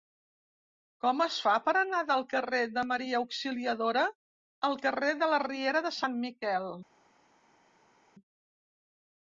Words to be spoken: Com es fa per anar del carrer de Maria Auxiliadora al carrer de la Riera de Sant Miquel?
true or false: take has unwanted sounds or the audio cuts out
false